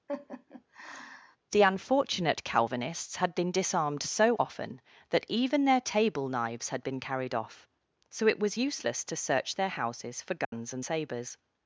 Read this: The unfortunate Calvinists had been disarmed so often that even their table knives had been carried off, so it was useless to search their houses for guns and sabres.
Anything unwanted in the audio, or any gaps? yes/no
yes